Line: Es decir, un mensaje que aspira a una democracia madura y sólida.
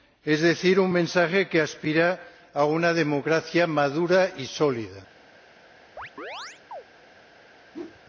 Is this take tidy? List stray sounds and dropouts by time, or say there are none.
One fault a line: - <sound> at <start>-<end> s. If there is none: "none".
- chirp at 6.0-6.8 s
- whoosh at 7.7-8.0 s